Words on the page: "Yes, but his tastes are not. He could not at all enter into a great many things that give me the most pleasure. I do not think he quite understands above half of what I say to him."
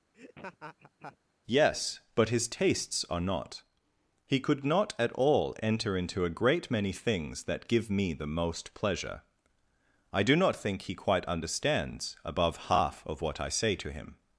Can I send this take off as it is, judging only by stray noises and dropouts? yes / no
no